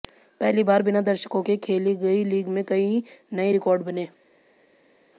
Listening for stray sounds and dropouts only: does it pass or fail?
pass